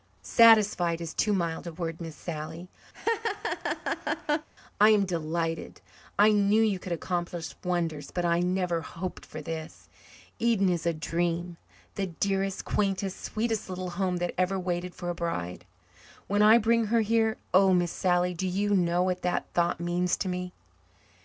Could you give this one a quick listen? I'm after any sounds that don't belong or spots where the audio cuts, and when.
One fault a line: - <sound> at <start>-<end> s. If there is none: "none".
- laugh at 2.9-4.5 s